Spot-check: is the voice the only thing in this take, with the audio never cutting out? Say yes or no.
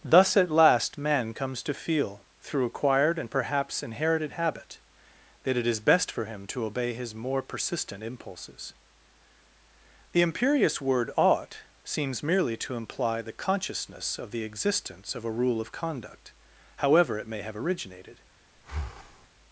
no